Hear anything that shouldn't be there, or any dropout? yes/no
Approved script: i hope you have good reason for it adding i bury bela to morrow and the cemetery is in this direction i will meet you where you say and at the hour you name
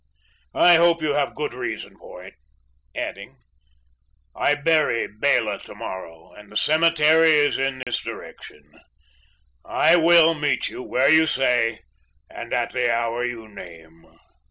yes